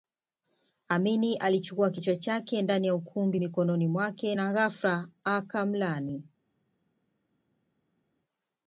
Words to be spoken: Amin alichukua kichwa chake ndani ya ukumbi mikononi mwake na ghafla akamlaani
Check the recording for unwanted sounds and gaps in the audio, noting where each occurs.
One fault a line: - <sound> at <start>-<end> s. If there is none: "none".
none